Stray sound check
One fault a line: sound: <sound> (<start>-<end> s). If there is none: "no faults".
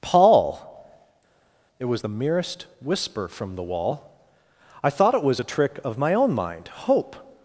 no faults